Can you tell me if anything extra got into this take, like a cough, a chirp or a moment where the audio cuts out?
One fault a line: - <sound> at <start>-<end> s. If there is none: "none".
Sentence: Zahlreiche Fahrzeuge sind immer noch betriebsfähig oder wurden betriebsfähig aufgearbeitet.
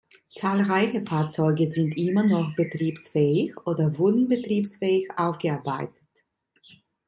none